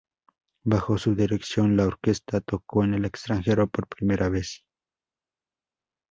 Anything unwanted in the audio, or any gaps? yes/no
no